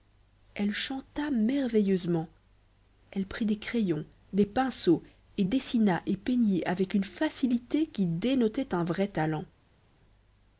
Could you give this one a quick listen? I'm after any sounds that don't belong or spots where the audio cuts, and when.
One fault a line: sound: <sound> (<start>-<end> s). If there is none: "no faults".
no faults